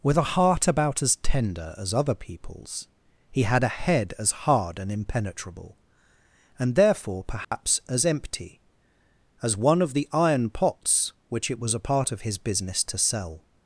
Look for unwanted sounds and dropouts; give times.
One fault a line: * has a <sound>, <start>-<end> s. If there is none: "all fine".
* has a dropout, 7.4-7.5 s